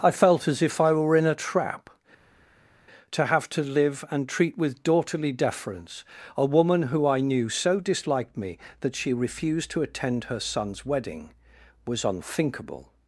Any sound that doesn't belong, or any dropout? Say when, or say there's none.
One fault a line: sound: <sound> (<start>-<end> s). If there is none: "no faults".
no faults